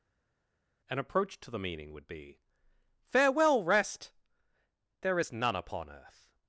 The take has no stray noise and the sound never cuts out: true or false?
true